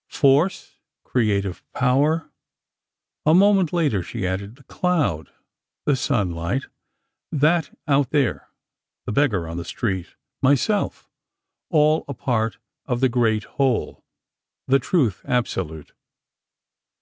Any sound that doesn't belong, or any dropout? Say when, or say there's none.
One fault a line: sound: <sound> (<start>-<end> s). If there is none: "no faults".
no faults